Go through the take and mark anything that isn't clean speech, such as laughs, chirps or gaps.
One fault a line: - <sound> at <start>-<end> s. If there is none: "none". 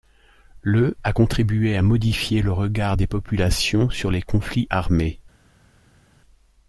none